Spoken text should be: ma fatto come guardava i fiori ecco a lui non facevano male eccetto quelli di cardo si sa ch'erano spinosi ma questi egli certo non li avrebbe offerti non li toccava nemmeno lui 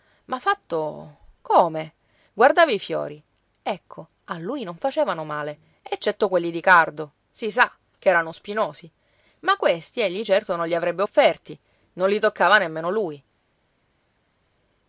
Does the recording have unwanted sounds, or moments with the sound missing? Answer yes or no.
no